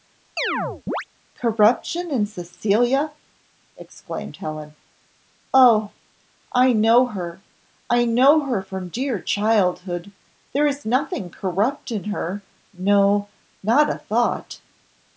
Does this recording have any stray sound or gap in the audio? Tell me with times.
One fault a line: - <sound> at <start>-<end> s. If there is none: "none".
- chirp at 0.4-1.1 s